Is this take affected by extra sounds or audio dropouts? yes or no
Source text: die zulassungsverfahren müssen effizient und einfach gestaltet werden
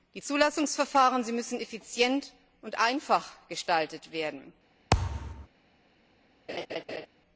yes